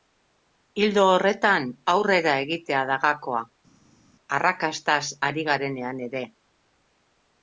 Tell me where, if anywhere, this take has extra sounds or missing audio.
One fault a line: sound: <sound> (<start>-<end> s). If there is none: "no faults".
no faults